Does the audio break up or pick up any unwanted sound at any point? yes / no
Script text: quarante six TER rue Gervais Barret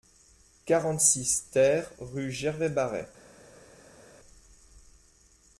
no